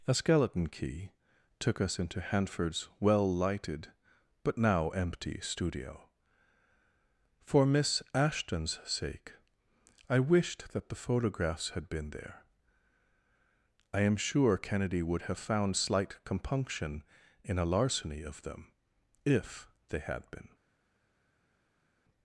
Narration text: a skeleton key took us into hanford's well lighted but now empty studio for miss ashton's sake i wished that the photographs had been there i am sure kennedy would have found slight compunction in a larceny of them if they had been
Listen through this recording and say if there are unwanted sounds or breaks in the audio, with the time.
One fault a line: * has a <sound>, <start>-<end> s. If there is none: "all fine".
all fine